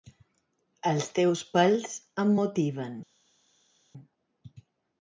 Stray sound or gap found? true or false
false